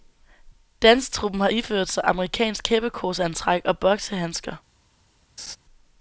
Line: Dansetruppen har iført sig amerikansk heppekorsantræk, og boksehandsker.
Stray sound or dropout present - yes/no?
yes